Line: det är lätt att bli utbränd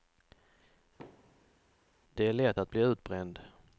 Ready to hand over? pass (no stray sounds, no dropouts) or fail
fail